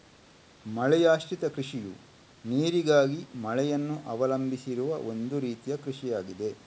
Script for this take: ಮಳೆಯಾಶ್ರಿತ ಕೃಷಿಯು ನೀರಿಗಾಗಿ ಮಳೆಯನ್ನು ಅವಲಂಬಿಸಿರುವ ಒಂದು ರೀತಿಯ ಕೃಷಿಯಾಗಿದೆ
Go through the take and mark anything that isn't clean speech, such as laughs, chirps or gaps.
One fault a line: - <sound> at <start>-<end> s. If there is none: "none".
none